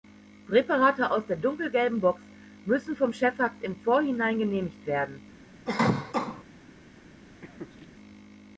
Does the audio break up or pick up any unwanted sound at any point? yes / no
yes